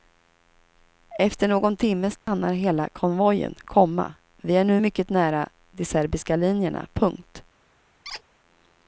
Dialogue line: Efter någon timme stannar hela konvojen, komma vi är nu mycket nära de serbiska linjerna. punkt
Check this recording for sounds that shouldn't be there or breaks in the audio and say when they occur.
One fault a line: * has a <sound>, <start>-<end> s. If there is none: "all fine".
* has a dropout, 2.2-2.3 s
* has a squeak, 8.0-8.2 s